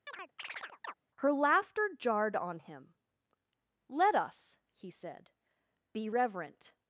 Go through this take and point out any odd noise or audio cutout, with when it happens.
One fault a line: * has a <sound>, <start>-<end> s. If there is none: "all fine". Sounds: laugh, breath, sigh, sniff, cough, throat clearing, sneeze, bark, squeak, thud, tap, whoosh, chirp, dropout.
* has a chirp, 0.1-0.9 s